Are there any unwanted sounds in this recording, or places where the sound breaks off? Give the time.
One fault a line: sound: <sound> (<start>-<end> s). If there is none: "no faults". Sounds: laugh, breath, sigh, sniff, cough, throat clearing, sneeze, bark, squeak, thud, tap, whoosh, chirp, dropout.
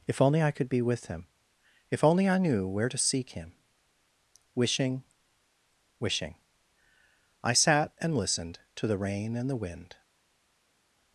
no faults